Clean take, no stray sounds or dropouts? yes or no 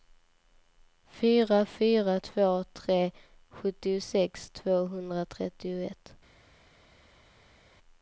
yes